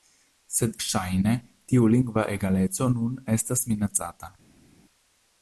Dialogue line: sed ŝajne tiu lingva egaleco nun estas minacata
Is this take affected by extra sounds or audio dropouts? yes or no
no